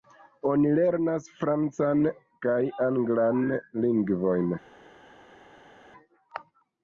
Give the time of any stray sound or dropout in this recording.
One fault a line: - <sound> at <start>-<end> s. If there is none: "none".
none